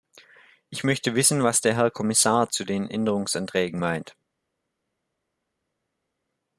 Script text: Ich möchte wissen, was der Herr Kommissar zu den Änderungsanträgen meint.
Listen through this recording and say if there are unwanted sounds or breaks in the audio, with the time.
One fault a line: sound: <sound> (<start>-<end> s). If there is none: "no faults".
no faults